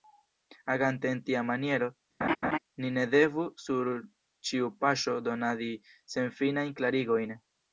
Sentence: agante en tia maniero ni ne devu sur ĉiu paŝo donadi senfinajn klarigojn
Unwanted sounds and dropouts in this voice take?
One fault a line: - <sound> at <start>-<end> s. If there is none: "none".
- laugh at 2.2-2.6 s